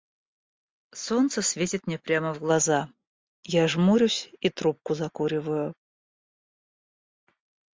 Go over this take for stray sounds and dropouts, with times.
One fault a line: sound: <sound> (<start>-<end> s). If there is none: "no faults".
no faults